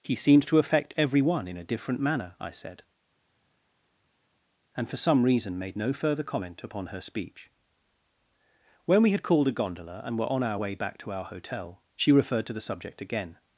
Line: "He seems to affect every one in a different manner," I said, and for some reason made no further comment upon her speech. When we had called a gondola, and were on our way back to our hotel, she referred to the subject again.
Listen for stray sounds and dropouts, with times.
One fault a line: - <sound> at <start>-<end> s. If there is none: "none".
none